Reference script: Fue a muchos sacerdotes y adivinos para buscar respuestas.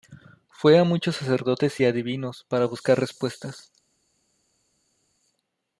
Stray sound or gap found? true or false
false